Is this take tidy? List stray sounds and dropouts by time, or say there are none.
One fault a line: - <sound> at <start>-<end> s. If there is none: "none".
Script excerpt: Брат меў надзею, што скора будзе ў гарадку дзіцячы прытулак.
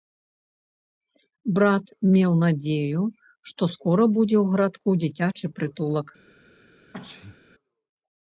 - sneeze at 6.9-7.4 s